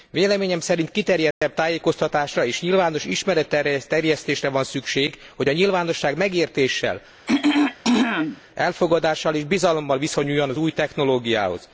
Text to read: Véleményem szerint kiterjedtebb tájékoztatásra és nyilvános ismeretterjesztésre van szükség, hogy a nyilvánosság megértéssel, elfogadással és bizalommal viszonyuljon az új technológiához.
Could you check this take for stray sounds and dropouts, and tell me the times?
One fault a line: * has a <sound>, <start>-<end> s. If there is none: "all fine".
* has a dropout, 1.3-1.4 s
* has a throat clearing, 7.3-8.4 s